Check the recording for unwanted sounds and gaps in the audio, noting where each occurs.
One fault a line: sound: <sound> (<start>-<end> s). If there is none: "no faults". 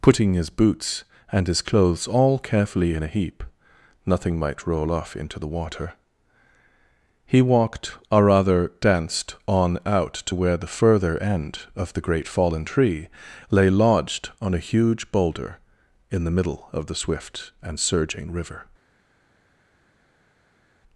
no faults